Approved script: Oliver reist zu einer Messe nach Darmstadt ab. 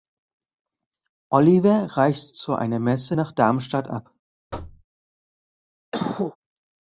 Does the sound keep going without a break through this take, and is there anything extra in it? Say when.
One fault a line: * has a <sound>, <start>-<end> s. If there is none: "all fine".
* has a thud, 4.5-4.8 s
* has a cough, 5.9-6.4 s